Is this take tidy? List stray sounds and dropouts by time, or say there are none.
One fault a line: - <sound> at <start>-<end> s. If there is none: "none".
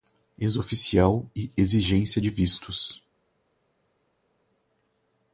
none